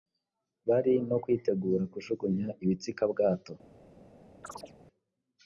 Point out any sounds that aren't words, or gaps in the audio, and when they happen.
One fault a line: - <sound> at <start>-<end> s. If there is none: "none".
- chirp at 4.4-4.7 s